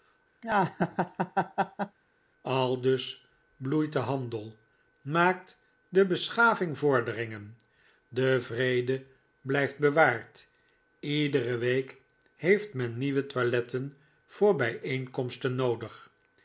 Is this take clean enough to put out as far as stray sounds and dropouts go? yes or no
no